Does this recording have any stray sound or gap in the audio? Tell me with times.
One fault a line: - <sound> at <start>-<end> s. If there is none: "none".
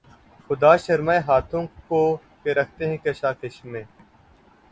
none